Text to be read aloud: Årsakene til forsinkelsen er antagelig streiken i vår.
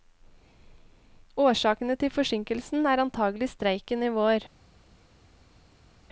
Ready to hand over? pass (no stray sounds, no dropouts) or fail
pass